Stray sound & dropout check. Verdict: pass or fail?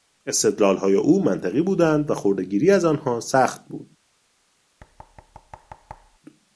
fail